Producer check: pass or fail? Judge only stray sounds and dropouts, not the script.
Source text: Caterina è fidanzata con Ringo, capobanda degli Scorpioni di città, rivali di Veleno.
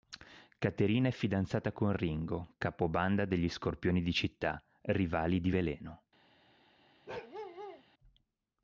fail